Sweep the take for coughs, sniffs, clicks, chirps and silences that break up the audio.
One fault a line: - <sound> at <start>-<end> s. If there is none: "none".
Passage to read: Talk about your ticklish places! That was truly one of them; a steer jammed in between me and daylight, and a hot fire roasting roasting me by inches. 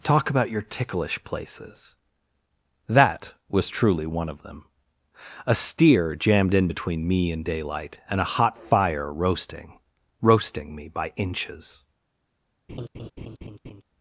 - laugh at 12.7-13.8 s